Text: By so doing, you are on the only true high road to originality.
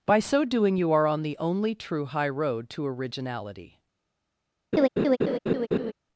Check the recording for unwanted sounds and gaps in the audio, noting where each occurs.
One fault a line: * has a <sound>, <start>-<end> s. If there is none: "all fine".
* has a laugh, 4.7-5.9 s